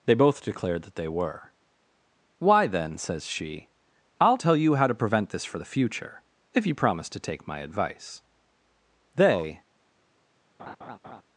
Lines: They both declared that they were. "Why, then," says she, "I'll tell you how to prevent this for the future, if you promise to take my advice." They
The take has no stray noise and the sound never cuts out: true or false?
false